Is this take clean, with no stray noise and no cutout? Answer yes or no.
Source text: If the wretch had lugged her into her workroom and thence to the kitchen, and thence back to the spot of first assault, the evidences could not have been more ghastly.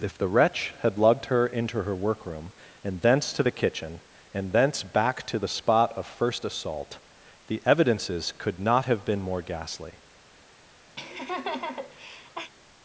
no